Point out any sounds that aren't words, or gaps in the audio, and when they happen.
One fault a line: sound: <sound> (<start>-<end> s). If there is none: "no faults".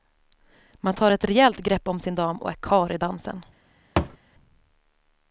sound: thud (4.0-4.2 s)